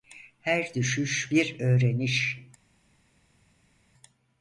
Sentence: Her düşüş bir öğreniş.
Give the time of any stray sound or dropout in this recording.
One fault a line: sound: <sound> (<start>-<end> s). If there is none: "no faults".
no faults